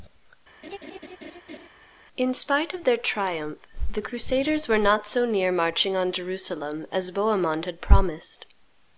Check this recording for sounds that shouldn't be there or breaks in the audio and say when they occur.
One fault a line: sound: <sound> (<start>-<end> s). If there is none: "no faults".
sound: laugh (0.6-1.7 s)